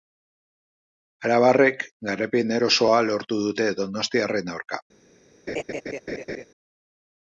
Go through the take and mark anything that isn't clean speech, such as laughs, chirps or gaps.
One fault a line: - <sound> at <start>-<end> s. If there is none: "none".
- laugh at 5.5-6.4 s